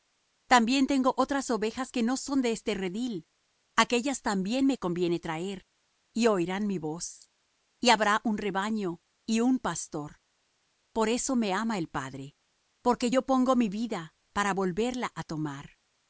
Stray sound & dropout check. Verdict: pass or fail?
pass